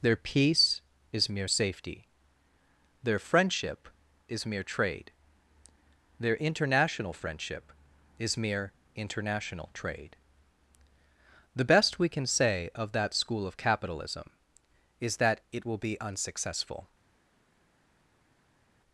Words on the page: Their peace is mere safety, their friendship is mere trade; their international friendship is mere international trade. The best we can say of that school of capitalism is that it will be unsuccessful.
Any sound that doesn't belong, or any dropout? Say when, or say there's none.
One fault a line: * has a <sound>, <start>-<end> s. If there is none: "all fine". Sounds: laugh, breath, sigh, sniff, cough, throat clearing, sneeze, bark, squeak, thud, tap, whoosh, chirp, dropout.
all fine